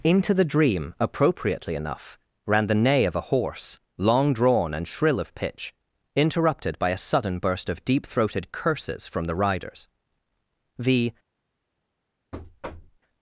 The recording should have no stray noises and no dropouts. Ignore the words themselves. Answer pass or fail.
fail